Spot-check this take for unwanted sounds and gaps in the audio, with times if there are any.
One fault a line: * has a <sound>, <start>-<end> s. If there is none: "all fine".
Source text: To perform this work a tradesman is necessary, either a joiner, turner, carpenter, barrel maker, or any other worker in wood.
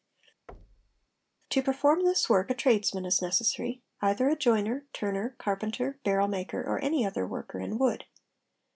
* has a thud, 0.5-1.1 s